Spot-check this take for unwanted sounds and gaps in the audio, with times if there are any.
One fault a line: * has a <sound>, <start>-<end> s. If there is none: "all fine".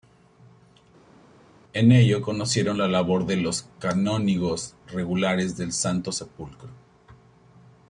all fine